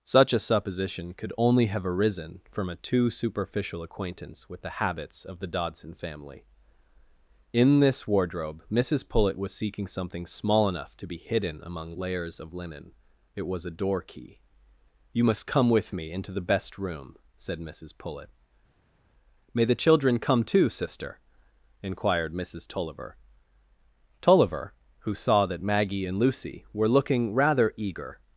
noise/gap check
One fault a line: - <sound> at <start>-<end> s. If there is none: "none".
none